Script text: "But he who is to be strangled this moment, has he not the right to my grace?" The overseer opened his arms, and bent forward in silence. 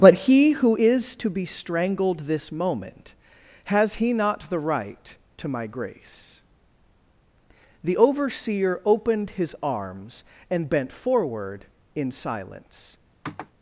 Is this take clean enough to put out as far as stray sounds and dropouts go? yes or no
no